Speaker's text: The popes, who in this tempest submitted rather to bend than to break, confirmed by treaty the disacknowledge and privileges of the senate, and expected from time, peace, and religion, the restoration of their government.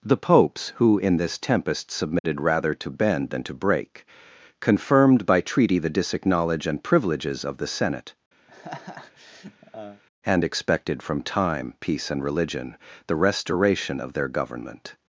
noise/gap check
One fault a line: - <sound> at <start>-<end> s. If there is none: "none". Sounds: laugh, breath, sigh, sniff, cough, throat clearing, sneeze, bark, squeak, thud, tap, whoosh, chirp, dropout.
- dropout at 2.2-2.2 s
- laugh at 8.5-10.0 s